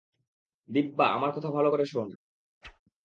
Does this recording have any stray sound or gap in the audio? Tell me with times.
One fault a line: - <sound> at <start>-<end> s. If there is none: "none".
- whoosh at 2.6-2.8 s